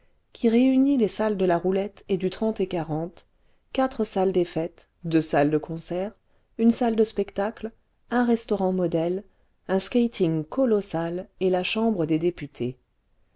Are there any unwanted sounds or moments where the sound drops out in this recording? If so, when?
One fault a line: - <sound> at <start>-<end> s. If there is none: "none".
none